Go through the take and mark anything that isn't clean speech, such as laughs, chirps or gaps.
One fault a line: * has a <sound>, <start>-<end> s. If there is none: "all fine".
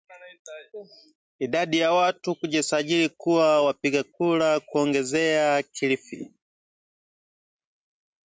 all fine